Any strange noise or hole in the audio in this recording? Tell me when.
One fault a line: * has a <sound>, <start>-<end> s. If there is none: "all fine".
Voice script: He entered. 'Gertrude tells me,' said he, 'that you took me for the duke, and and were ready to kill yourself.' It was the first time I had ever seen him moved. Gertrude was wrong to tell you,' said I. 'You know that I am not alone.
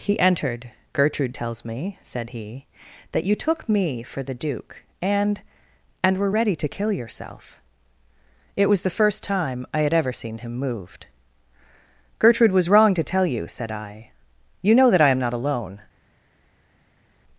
all fine